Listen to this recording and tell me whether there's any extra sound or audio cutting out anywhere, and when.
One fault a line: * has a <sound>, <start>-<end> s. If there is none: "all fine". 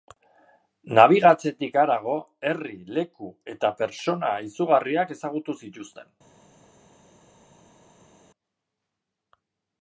all fine